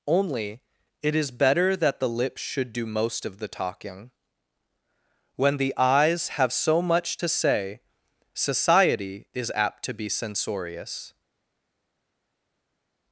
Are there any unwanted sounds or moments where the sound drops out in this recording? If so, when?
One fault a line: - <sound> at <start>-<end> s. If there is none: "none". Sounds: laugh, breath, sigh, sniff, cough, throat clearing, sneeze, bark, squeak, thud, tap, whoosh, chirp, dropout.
none